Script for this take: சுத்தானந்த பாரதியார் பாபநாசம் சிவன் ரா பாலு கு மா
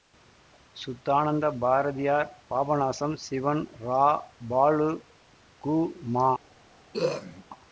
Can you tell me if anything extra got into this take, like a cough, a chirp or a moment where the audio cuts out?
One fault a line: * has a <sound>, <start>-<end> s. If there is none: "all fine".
* has a throat clearing, 6.9-7.4 s